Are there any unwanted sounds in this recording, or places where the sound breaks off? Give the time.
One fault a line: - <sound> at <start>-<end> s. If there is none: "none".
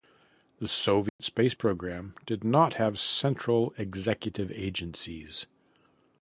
- dropout at 1.1-1.2 s